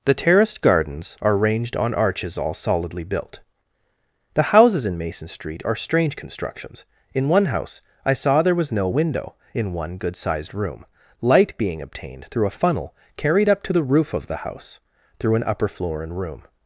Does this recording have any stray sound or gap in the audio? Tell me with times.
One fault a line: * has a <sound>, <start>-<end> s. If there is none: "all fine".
all fine